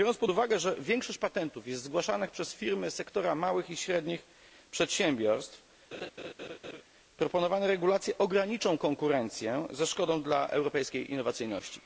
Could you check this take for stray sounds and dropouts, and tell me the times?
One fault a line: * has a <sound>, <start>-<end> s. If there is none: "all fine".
* has a laugh, 5.9-6.8 s